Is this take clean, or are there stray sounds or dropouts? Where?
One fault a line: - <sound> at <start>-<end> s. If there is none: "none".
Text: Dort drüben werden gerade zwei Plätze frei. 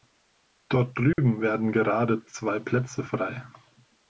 - dropout at 1.1-1.2 s